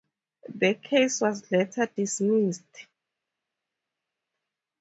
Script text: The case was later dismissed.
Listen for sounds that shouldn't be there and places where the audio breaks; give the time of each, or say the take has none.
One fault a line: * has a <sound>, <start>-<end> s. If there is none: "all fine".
all fine